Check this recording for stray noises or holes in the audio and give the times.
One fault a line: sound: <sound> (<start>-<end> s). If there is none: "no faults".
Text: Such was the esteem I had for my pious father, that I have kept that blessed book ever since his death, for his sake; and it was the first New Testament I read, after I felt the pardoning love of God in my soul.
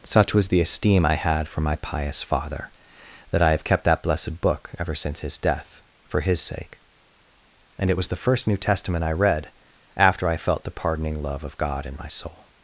no faults